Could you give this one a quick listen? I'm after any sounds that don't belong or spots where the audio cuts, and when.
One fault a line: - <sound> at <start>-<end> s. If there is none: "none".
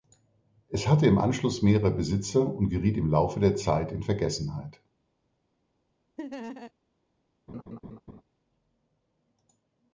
- laugh at 6.2-6.7 s
- laugh at 7.5-8.2 s